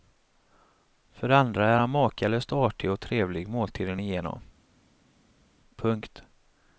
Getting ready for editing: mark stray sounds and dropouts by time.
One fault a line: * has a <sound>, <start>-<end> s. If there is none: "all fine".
all fine